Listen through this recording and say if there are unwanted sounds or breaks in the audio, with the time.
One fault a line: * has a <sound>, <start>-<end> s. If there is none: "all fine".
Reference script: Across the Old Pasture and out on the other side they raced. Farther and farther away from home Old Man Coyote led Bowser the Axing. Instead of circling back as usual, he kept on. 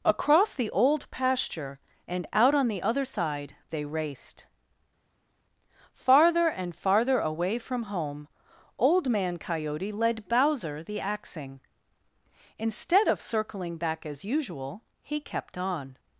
all fine